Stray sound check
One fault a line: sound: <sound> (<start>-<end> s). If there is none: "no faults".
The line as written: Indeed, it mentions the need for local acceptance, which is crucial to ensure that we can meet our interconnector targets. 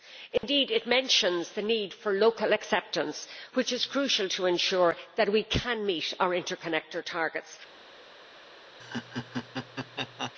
sound: dropout (0.4-0.4 s)
sound: laugh (8.8-10.3 s)